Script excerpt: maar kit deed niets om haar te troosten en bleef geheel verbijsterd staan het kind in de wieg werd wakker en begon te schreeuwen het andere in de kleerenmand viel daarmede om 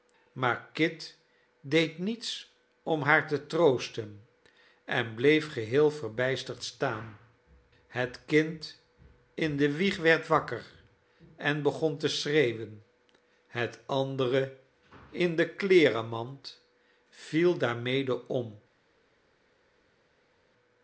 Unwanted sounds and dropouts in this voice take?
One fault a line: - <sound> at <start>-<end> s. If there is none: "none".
none